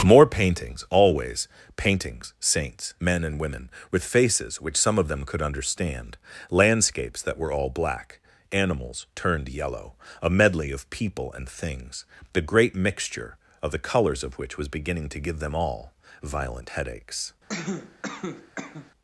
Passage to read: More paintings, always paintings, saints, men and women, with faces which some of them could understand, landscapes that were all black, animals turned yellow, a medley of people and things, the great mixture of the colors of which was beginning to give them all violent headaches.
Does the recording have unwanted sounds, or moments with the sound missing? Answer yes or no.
yes